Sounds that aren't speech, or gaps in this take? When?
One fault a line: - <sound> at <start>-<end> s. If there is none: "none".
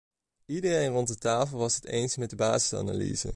none